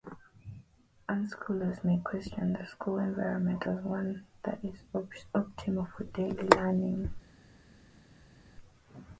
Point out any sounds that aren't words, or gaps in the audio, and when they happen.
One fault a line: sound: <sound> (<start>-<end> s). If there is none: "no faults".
no faults